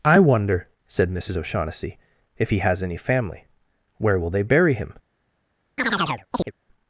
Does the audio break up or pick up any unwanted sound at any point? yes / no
yes